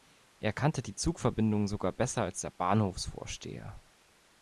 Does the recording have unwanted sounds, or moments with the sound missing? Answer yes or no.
no